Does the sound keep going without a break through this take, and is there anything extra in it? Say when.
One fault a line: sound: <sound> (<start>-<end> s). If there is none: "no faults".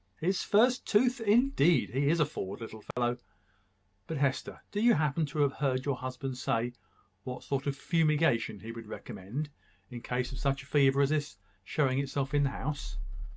sound: dropout (2.9-3.0 s)